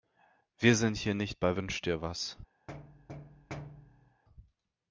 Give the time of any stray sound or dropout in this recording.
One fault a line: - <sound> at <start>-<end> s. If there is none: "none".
- thud at 2.7-4.2 s